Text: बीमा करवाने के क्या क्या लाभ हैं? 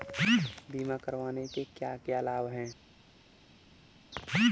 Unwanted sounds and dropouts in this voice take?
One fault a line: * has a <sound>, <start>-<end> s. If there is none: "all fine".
all fine